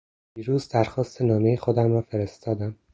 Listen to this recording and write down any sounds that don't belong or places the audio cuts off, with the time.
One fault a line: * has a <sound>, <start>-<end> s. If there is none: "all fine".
all fine